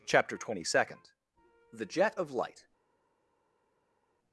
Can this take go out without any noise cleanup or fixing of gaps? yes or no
yes